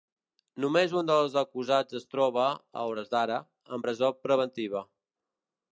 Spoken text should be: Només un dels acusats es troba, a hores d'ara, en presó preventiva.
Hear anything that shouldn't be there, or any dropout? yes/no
no